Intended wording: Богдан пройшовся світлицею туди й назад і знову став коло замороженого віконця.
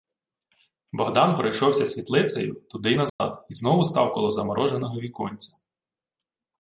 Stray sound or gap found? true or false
true